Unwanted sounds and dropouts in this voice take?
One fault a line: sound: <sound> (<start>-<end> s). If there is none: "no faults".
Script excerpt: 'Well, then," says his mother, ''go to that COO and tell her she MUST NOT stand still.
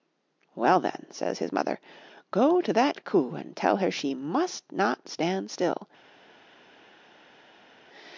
no faults